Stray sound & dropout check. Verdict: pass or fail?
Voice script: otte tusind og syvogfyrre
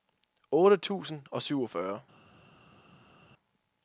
pass